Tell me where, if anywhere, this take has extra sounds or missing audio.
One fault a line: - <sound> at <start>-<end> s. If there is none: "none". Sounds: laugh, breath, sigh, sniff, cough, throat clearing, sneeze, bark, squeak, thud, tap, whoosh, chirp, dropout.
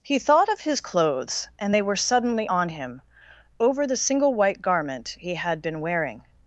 none